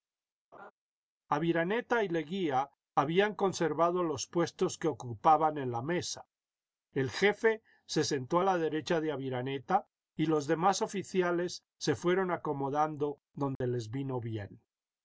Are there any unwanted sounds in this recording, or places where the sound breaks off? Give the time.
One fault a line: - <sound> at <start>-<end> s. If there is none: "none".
- laugh at 0.5-0.7 s
- dropout at 13.6-13.6 s